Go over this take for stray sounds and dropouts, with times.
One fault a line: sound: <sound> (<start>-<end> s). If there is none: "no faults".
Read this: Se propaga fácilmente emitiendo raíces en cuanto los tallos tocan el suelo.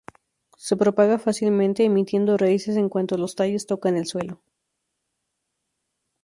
no faults